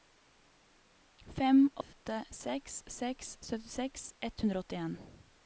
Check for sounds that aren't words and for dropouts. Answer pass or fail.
fail